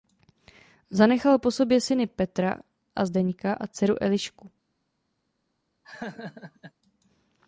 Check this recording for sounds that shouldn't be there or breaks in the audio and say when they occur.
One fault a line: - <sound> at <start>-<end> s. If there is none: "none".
- laugh at 5.8-6.7 s